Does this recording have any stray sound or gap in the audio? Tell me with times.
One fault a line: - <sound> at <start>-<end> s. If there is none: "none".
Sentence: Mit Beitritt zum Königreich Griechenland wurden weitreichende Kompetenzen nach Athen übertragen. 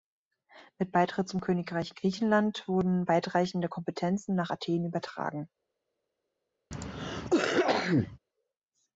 - cough at 6.7-8.2 s